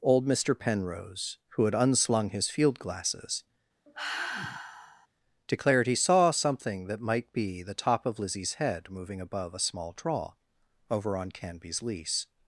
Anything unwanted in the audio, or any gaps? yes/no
yes